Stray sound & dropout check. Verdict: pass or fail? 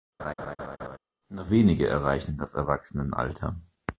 fail